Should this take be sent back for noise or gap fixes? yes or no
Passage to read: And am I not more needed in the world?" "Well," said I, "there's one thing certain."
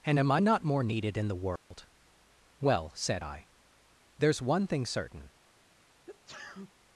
yes